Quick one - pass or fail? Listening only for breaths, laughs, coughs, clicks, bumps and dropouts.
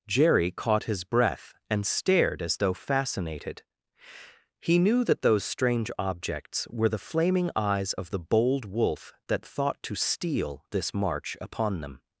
pass